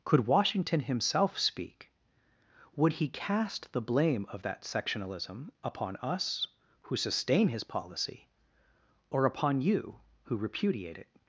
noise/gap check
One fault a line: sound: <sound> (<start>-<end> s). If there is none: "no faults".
no faults